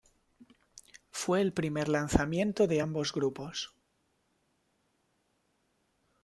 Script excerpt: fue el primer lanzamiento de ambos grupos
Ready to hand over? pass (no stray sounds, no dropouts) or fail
pass